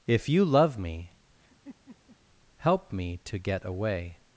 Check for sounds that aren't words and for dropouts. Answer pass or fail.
fail